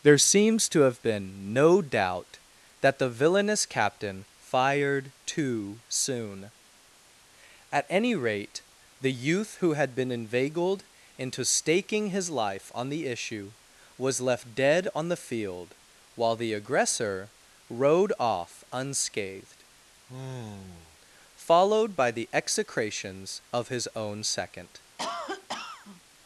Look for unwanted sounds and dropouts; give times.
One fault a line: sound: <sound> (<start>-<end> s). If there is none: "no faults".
sound: sigh (20.1-21.0 s)
sound: cough (25.0-26.0 s)